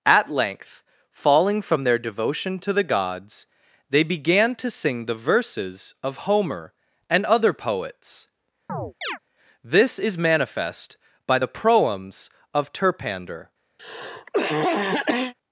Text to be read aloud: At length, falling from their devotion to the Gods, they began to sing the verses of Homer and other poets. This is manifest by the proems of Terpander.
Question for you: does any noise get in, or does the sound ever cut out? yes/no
yes